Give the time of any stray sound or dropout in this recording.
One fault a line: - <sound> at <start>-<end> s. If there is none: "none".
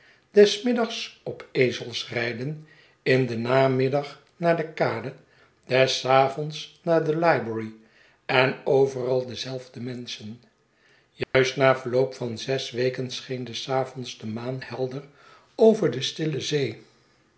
- dropout at 11.2-11.3 s